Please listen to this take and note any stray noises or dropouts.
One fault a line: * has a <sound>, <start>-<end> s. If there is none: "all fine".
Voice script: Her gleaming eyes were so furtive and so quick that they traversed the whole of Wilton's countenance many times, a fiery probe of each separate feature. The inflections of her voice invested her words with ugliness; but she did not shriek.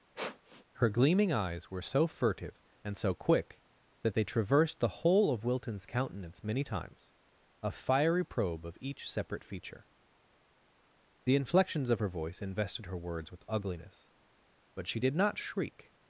* has a sniff, 0.2-0.6 s